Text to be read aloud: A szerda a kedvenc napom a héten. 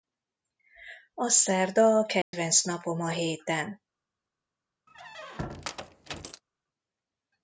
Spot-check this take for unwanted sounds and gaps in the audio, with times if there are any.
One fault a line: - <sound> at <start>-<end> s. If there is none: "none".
- dropout at 2.2-2.3 s
- squeak at 4.9-6.4 s